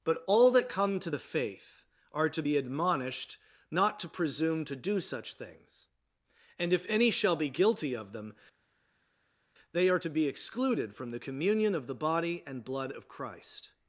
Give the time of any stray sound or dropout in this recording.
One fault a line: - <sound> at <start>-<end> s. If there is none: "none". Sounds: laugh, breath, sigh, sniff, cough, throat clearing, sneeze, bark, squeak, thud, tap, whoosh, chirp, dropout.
none